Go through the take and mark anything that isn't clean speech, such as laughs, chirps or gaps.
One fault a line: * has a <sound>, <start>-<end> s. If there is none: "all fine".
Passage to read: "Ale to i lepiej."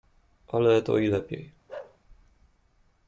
* has a bark, 1.7-2.0 s